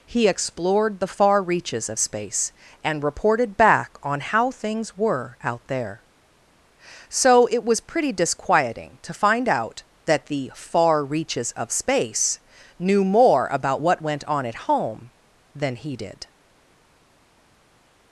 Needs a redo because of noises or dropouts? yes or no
no